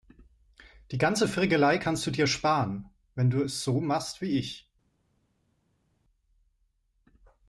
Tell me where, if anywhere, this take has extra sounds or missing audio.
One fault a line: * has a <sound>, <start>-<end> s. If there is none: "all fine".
all fine